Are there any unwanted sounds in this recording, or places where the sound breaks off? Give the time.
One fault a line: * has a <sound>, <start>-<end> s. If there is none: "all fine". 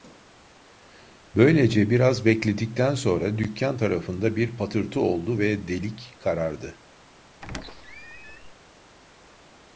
* has a squeak, 7.4-8.5 s